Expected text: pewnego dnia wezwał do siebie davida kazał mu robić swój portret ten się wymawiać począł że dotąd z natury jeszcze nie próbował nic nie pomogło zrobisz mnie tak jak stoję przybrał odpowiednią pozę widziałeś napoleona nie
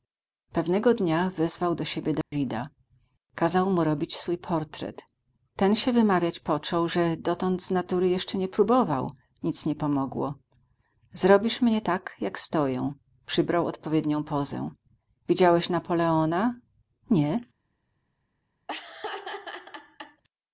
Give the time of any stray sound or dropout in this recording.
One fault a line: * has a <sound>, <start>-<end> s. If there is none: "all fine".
* has a dropout, 2.2-2.3 s
* has a laugh, 18.7-20.2 s